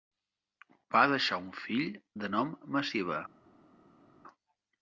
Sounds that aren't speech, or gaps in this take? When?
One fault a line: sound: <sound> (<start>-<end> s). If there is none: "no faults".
no faults